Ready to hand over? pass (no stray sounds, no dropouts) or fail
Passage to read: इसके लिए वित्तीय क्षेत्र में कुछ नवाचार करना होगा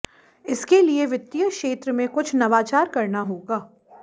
pass